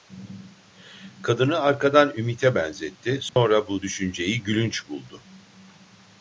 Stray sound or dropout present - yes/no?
yes